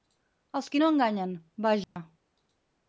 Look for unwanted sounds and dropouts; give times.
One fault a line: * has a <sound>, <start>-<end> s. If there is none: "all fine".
* has a dropout, 1.8-2.0 s